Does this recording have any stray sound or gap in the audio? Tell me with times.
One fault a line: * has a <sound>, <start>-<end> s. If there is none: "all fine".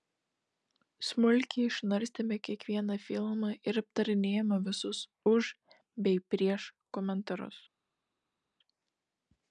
all fine